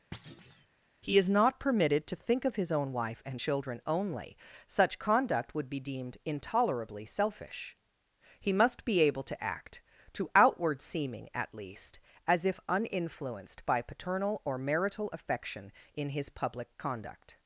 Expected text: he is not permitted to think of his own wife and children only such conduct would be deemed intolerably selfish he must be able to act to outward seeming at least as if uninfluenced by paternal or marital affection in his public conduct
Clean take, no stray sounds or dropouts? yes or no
no